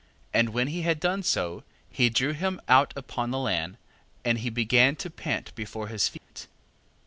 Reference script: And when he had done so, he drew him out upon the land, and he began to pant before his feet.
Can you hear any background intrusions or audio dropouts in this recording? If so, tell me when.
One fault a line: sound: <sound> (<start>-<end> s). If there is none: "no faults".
sound: dropout (6.2-6.3 s)